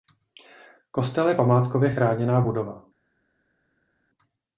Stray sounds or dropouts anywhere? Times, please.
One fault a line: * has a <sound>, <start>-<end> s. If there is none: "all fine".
all fine